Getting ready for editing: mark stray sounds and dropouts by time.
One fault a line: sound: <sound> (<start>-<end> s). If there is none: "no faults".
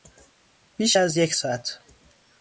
no faults